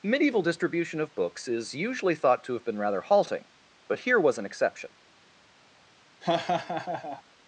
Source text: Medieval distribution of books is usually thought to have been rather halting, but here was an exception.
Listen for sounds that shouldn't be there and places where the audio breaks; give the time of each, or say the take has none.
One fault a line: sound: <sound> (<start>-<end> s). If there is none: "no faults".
sound: laugh (6.2-7.2 s)